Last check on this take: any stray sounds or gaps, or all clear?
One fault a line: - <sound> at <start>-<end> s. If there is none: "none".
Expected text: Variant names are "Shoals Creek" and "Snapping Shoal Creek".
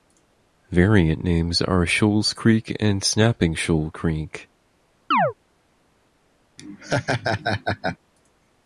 - chirp at 5.1-5.3 s
- laugh at 6.6-8.0 s